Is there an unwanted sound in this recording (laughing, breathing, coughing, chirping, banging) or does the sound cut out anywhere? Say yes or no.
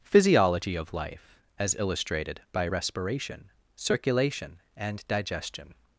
no